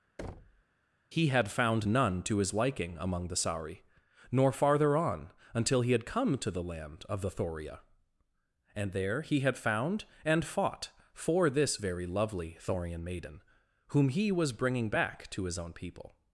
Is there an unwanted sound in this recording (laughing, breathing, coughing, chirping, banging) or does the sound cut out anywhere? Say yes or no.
yes